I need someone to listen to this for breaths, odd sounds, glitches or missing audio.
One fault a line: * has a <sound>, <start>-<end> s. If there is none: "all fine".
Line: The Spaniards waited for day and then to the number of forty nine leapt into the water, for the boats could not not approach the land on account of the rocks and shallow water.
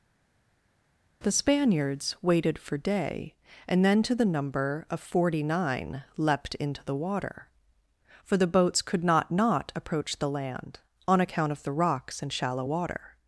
all fine